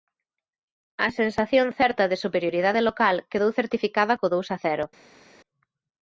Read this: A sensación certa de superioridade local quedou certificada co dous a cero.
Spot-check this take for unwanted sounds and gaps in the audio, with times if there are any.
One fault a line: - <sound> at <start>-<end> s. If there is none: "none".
none